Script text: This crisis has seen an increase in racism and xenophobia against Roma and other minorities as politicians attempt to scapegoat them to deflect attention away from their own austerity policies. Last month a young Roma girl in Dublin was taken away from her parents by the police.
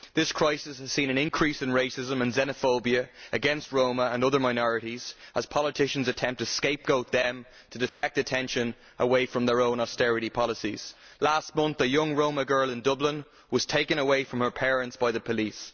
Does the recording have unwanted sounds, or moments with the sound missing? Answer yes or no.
yes